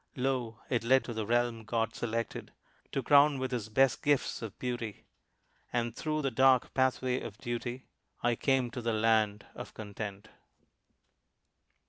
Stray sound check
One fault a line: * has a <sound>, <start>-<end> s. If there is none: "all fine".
all fine